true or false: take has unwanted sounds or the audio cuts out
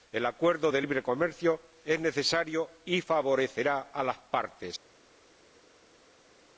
false